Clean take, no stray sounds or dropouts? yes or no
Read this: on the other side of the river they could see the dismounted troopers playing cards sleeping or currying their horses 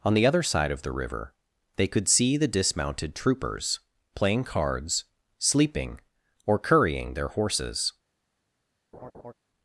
no